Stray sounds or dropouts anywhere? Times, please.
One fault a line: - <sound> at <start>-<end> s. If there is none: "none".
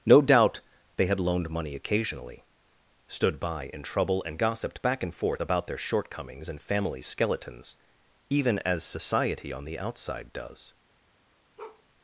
- bark at 11.6-11.8 s